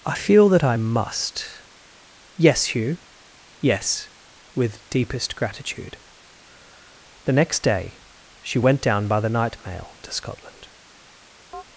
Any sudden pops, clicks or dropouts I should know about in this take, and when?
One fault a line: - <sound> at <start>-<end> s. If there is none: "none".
- chirp at 11.5-11.6 s